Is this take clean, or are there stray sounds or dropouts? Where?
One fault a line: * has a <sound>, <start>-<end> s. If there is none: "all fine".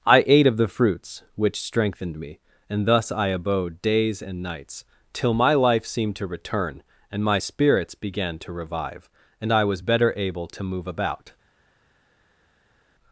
all fine